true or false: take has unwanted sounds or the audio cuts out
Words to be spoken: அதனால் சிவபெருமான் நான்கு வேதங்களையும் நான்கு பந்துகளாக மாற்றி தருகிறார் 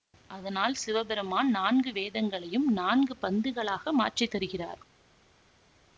false